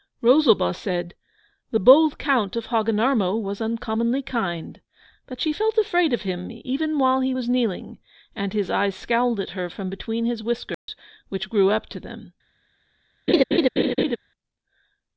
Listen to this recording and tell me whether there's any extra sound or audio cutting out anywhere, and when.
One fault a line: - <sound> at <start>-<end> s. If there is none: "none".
- dropout at 10.7-10.9 s
- laugh at 13.3-14.2 s